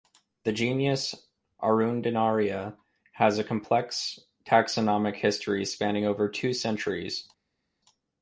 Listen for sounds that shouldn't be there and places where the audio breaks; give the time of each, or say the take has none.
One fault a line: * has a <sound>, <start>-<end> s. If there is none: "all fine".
all fine